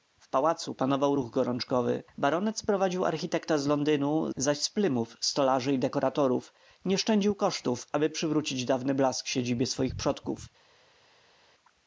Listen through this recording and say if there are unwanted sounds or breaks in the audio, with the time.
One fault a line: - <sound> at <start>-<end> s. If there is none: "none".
none